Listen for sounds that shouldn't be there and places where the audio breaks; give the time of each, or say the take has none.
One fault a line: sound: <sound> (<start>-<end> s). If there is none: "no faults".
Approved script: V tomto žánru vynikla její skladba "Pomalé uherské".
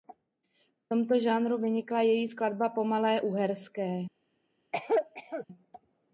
sound: cough (4.7-5.5 s)